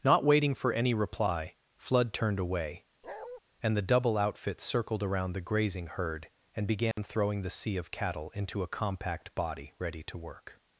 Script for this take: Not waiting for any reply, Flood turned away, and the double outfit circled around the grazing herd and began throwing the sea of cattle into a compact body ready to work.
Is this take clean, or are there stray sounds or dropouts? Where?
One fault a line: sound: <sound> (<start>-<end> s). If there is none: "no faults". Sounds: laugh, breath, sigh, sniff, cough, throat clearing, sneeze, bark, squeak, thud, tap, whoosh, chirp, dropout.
sound: bark (3.0-3.4 s)
sound: dropout (6.9-7.0 s)